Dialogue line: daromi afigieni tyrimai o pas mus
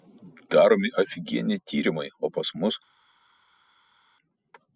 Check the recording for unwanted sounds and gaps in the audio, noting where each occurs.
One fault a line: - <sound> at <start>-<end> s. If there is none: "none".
none